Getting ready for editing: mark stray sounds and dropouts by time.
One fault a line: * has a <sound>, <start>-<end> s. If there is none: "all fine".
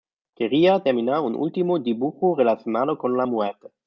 all fine